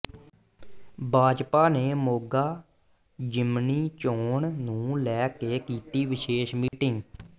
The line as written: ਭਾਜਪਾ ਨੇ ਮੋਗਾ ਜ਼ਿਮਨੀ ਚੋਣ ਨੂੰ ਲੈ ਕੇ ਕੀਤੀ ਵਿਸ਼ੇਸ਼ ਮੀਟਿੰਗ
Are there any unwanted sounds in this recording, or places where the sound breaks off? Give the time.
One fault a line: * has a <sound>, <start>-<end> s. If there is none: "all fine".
* has a dropout, 6.7-6.7 s